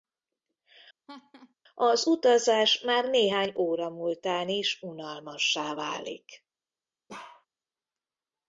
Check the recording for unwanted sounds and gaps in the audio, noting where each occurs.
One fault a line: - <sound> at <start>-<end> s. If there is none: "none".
- laugh at 1.1-1.5 s
- bark at 7.1-7.5 s